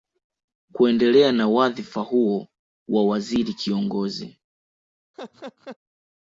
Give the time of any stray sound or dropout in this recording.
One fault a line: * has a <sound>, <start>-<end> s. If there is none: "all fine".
* has a laugh, 5.1-5.8 s